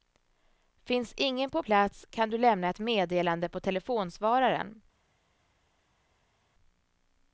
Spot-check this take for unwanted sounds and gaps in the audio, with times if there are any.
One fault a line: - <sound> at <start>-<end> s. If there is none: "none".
none